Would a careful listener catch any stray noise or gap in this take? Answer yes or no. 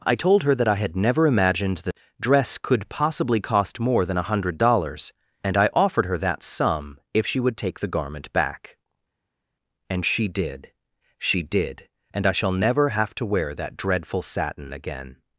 no